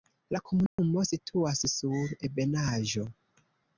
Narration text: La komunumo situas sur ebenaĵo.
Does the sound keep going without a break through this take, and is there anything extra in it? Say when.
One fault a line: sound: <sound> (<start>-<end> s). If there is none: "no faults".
sound: dropout (0.7-0.8 s)